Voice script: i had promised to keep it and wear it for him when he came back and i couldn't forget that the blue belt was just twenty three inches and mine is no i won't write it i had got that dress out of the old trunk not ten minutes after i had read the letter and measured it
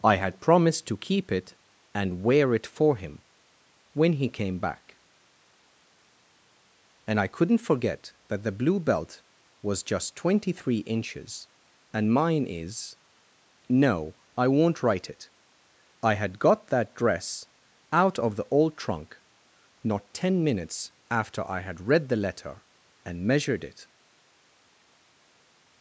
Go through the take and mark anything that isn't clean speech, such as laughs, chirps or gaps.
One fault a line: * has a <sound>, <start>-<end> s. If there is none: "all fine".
all fine